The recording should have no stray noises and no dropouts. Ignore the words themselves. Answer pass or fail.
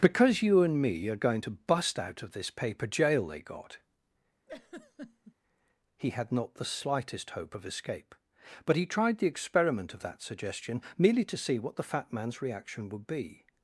fail